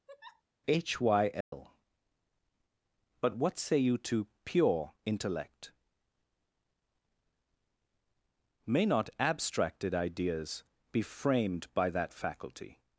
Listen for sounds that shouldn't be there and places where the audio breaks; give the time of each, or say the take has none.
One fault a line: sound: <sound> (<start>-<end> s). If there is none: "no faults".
sound: laugh (0.1-0.4 s)
sound: dropout (1.4-1.5 s)